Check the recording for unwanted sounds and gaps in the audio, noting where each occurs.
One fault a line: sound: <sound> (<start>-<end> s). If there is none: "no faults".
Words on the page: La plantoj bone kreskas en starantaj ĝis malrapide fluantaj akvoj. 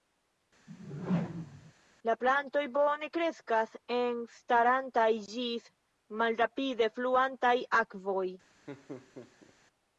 sound: whoosh (0.7-1.7 s)
sound: laugh (8.7-9.5 s)